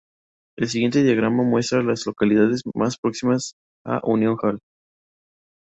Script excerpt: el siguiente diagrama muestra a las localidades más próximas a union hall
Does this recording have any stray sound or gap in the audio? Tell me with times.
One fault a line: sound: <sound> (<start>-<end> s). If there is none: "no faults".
no faults